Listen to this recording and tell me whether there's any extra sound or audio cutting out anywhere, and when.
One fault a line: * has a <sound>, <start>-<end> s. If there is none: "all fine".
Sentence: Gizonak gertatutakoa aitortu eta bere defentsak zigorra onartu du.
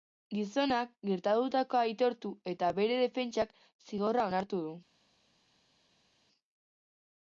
all fine